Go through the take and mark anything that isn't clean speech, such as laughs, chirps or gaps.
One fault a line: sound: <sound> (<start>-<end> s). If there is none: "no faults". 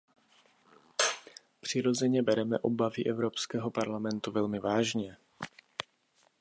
no faults